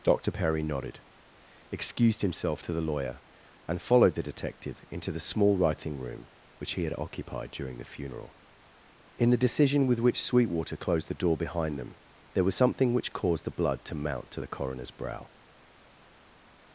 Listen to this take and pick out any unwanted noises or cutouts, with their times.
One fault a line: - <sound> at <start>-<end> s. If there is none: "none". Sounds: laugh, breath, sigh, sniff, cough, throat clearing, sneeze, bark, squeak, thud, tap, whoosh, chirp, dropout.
none